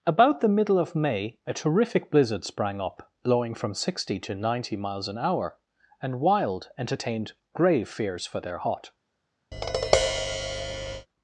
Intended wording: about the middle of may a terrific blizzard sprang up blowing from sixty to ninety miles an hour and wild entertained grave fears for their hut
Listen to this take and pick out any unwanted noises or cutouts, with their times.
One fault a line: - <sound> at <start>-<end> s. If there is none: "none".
- tap at 9.5-11.1 s